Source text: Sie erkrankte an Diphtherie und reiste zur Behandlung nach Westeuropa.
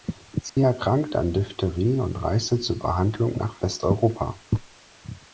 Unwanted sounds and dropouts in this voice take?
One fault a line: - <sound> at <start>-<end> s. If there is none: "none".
- dropout at 0.5-0.6 s